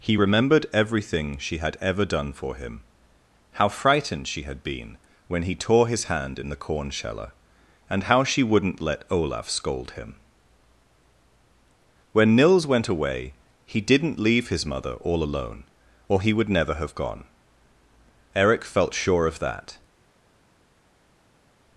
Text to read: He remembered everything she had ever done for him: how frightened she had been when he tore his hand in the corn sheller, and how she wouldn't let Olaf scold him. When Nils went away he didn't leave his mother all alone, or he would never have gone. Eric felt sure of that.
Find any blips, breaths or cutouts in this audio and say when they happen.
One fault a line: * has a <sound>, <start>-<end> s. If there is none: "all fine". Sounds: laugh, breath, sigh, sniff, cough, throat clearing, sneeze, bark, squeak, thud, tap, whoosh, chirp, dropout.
all fine